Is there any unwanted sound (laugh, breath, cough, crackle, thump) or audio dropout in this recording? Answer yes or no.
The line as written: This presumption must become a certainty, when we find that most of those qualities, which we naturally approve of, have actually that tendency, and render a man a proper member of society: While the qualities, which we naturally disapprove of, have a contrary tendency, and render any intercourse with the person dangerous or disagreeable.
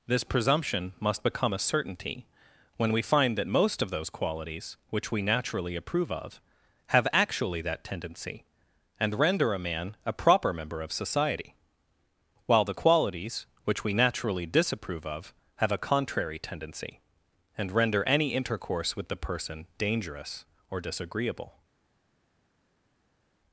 no